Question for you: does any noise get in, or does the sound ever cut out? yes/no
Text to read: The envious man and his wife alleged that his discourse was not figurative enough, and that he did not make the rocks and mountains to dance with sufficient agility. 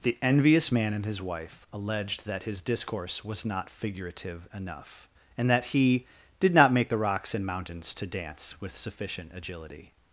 no